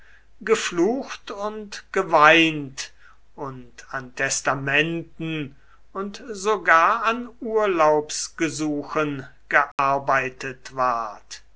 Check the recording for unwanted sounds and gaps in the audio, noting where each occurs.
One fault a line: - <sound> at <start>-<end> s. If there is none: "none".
- dropout at 9.7-9.8 s